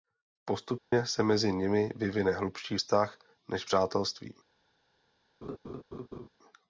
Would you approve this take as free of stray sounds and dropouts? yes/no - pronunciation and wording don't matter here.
no